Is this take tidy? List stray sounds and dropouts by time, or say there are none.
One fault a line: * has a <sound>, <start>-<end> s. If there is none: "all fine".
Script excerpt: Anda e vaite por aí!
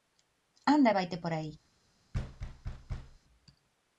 * has a thud, 2.1-3.2 s